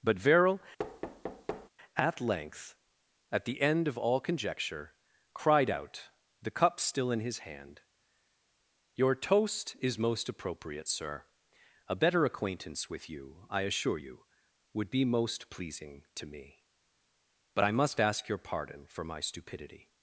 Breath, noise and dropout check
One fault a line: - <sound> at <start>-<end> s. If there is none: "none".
- thud at 0.8-1.7 s